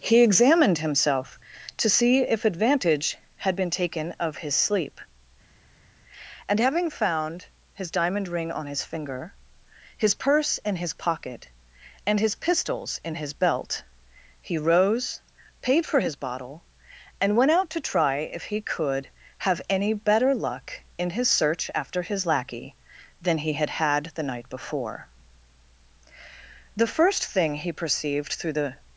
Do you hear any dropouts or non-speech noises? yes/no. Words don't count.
no